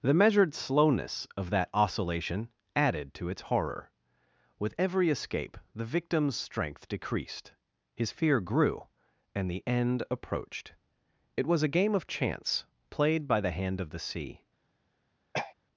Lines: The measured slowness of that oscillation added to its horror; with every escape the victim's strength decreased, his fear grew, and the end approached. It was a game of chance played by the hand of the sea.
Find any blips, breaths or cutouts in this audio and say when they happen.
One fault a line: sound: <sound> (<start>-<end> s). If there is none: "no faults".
sound: throat clearing (15.3-15.5 s)